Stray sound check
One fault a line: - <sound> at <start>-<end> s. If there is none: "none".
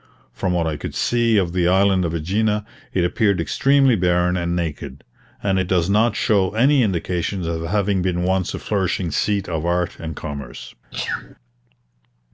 - sneeze at 10.9-11.4 s